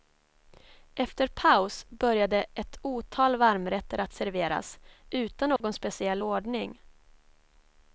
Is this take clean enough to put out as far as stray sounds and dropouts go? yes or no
no